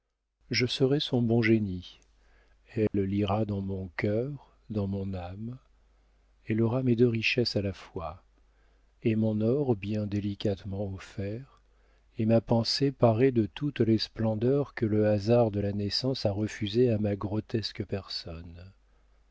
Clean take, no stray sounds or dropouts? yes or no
no